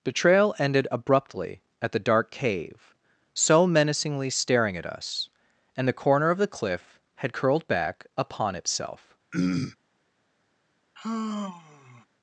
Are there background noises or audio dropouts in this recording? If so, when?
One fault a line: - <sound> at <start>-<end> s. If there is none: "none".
- throat clearing at 9.3-9.8 s
- sigh at 11.0-12.1 s